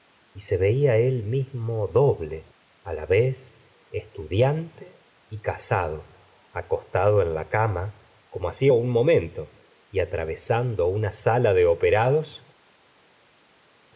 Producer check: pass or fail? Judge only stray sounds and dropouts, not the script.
pass